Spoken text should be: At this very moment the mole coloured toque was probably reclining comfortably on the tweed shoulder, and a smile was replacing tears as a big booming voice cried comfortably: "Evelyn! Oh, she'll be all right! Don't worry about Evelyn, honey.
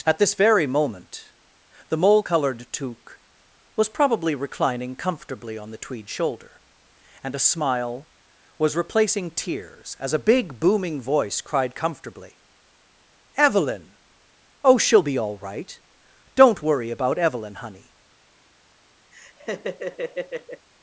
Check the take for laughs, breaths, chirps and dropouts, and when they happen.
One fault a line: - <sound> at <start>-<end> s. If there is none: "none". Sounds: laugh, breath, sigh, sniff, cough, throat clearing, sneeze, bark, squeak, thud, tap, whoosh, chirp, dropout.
- laugh at 19.1-20.7 s